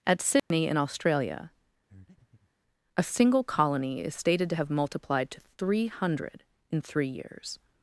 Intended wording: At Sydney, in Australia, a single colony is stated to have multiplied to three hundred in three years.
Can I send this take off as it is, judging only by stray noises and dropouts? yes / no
no